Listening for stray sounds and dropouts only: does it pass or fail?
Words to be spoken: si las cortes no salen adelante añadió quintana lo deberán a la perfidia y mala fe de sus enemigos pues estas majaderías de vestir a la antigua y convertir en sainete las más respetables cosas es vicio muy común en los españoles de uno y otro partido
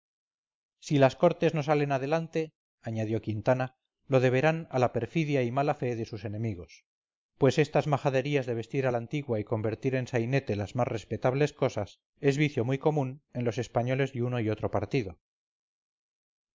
pass